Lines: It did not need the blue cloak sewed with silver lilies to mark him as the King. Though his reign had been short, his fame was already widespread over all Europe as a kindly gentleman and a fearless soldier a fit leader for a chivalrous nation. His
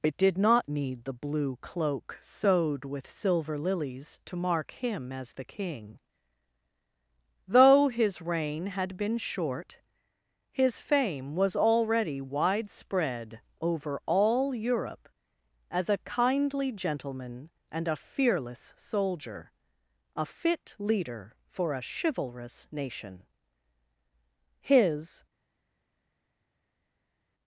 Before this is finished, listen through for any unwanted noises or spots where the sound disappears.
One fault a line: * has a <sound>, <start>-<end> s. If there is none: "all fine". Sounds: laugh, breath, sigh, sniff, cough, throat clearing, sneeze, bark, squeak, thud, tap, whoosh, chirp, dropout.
all fine